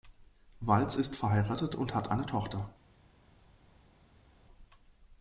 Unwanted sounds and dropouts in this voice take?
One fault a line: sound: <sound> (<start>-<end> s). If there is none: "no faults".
no faults